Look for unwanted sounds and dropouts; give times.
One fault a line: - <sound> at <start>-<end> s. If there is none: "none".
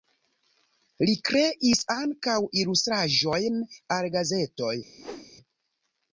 - whoosh at 5.0-5.3 s